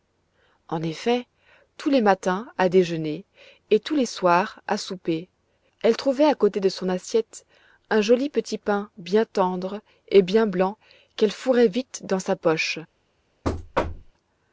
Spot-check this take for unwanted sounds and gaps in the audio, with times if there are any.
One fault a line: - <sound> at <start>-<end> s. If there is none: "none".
- thud at 13.4-14.1 s